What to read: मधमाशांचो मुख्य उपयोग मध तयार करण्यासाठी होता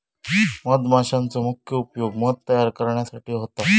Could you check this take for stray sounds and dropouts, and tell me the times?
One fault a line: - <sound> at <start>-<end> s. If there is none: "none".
none